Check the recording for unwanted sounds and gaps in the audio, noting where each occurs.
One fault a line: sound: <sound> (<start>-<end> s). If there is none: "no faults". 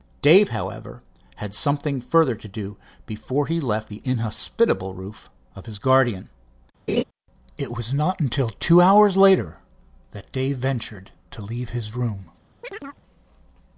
sound: laugh (6.9-7.0 s)
sound: chirp (12.6-13.0 s)